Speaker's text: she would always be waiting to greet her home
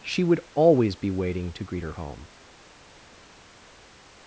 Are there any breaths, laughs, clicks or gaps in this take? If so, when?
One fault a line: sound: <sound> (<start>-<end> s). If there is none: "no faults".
no faults